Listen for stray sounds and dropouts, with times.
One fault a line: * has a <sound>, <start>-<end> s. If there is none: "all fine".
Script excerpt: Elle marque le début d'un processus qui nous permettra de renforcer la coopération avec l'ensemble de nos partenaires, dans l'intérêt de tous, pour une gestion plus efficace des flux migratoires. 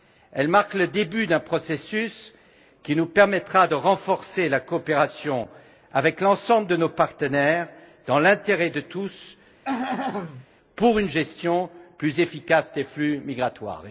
* has a throat clearing, 9.6-10.5 s